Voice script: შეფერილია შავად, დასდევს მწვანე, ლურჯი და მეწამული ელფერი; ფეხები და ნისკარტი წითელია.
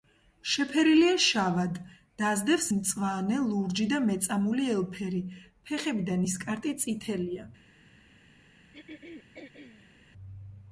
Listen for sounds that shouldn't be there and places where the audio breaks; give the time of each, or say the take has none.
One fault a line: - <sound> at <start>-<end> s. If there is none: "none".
- throat clearing at 8.7-10.0 s